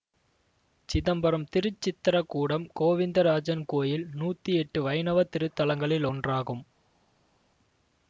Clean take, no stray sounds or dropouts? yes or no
yes